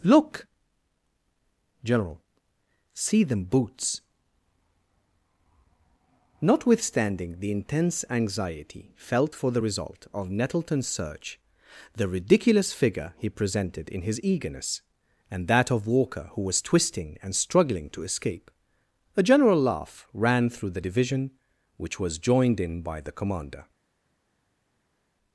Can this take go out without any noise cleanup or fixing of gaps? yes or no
yes